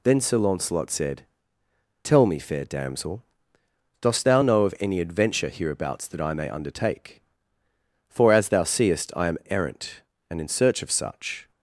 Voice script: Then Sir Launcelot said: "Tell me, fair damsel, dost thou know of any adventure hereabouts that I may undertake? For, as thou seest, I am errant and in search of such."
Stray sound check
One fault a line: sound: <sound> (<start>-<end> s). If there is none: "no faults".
no faults